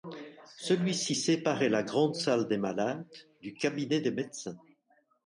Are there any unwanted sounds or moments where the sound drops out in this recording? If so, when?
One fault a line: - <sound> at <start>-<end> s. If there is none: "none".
none